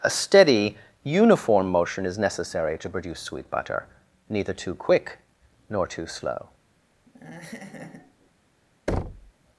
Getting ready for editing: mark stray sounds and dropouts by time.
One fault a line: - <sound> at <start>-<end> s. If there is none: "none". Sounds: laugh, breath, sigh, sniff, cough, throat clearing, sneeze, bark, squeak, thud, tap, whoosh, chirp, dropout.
- laugh at 7.1-8.3 s
- thud at 8.9-9.3 s